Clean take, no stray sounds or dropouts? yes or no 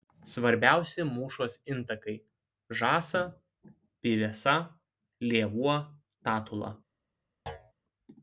no